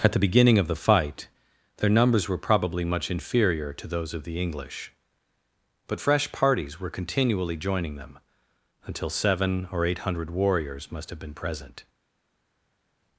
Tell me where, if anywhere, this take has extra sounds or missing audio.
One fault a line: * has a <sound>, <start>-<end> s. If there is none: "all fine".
all fine